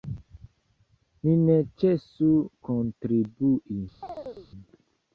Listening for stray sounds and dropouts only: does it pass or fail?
fail